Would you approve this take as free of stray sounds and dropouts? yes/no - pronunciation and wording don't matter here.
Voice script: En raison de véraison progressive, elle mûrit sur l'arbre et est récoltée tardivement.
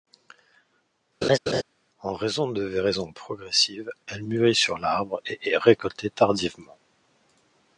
no